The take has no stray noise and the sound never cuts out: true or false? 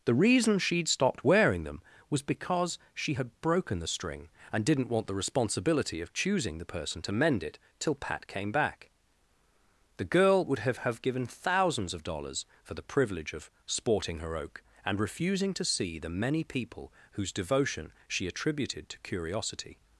true